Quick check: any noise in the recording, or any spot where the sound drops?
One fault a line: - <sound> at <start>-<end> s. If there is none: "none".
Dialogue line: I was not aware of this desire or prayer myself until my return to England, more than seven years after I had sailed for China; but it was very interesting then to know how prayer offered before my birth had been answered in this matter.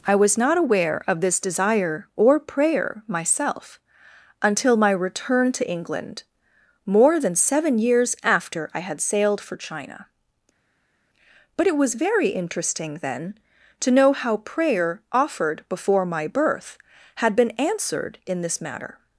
none